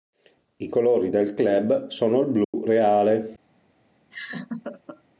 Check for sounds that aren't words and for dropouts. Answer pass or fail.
fail